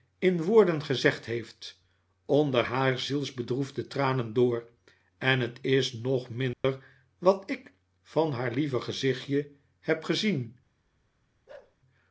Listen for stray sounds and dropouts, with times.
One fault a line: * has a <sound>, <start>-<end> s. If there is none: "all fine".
* has a dropout, 6.5-6.6 s
* has a bark, 11.5-11.8 s